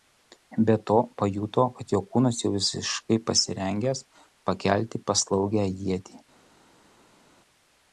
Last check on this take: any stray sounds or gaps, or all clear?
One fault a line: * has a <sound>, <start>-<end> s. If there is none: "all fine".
all fine